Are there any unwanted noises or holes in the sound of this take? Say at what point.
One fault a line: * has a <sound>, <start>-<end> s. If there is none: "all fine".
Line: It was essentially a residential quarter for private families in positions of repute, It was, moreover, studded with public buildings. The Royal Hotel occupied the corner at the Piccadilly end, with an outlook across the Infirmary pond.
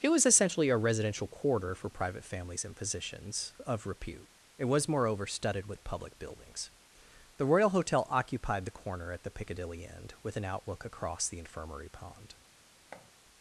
* has a thud, 12.9-13.1 s